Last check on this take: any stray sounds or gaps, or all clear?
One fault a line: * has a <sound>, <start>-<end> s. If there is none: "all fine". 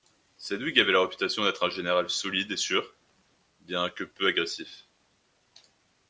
all fine